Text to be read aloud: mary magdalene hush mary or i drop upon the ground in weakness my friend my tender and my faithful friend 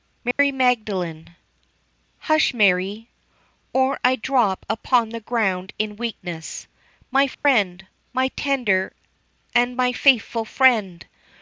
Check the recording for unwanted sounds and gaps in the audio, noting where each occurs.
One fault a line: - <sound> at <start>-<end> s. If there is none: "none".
- dropout at 0.3-0.4 s
- dropout at 7.3-7.5 s